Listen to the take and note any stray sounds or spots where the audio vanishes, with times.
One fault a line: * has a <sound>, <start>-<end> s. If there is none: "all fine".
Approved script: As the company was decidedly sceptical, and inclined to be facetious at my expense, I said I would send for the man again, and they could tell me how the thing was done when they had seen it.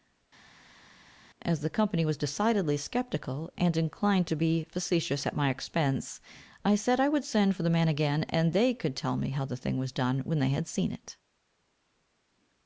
all fine